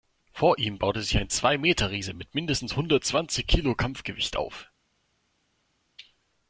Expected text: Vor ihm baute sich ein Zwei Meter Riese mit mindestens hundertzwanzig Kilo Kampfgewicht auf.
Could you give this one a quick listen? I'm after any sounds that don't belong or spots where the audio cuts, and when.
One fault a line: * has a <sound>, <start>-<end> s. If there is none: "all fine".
all fine